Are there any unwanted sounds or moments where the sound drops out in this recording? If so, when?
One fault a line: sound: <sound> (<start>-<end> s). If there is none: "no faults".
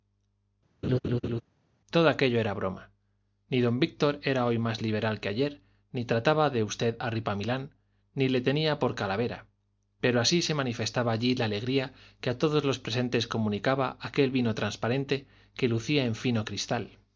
sound: laugh (0.8-1.4 s)